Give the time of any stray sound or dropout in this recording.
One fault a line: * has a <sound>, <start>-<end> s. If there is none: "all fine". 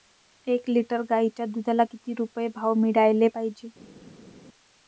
all fine